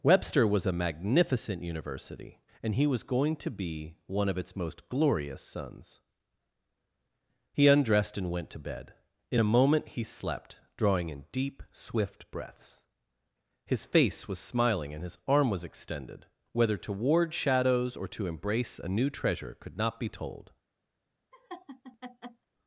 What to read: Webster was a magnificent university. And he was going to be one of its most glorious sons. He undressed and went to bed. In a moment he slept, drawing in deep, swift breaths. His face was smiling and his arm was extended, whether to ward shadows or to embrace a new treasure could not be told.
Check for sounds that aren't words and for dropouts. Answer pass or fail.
fail